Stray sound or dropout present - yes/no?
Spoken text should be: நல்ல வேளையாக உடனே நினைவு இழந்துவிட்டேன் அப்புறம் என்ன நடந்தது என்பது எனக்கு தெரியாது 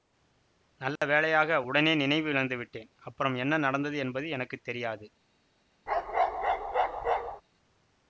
yes